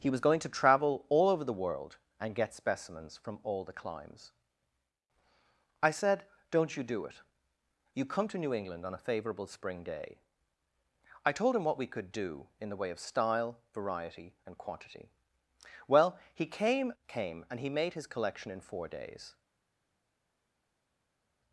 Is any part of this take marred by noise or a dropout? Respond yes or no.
no